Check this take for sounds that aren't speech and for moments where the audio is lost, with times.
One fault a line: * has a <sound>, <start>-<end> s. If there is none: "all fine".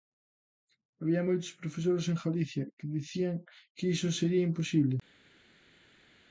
all fine